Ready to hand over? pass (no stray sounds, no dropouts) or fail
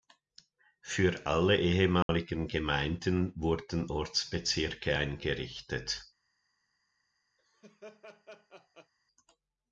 fail